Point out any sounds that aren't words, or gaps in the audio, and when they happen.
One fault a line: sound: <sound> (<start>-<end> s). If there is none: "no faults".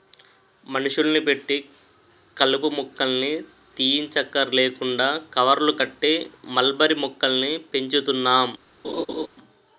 sound: laugh (8.8-9.3 s)